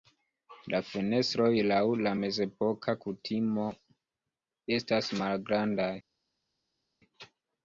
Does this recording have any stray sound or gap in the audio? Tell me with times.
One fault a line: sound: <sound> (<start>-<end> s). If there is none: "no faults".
no faults